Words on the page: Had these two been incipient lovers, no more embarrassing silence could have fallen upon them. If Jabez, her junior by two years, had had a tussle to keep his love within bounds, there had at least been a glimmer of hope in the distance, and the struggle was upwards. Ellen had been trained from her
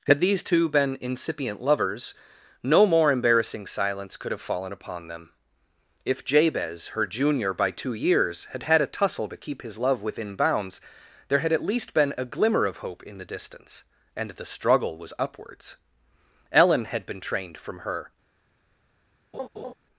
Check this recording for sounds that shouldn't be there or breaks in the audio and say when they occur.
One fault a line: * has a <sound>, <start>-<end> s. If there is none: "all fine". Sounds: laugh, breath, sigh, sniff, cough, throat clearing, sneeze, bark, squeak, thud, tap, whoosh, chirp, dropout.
* has a laugh, 19.3-19.7 s